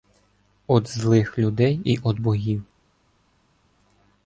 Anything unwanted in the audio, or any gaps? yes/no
no